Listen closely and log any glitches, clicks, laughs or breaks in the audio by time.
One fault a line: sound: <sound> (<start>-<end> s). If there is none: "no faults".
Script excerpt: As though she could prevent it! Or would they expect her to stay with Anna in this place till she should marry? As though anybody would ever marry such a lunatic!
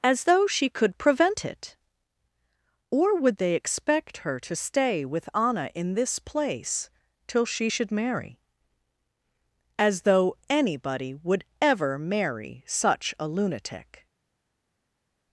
no faults